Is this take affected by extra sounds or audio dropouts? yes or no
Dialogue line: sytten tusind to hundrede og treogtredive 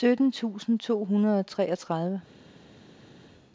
no